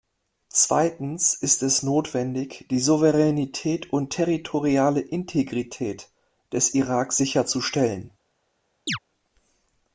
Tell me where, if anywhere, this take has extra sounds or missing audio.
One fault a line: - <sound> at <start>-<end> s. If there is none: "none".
- chirp at 8.9-9.0 s